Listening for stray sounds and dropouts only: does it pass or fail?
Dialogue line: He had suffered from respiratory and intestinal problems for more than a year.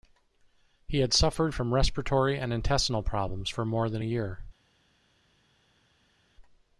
pass